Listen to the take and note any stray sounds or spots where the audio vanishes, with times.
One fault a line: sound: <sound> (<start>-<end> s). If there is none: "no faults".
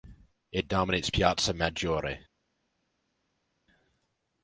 no faults